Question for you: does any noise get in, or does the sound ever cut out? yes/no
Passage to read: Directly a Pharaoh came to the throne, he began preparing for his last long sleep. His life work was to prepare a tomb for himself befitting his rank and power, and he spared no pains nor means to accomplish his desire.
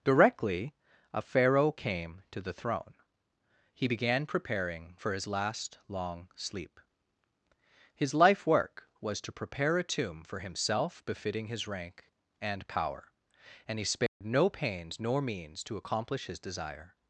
yes